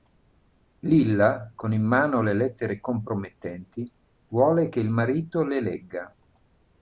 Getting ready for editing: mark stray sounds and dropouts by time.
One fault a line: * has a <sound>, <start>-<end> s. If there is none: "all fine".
all fine